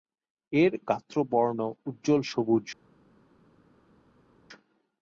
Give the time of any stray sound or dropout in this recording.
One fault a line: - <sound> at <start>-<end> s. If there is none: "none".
none